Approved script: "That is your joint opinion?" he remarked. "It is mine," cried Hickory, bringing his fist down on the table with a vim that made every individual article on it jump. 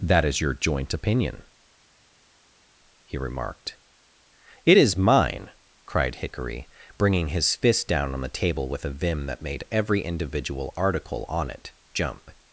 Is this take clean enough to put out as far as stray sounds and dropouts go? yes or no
yes